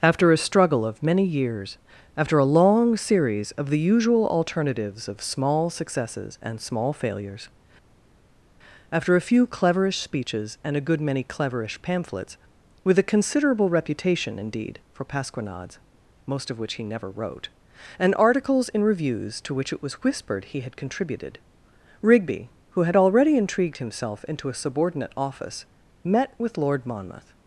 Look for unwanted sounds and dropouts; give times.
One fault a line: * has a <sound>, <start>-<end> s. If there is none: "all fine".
all fine